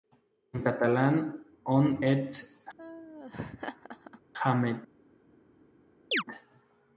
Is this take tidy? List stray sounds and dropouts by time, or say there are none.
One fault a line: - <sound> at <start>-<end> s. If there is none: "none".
- laugh at 2.8-4.2 s
- chirp at 6.1-6.2 s